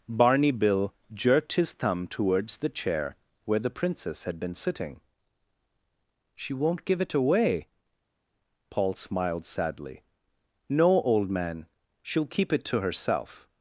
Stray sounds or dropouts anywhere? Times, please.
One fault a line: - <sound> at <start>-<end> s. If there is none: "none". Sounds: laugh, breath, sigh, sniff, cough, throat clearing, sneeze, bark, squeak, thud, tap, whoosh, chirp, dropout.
none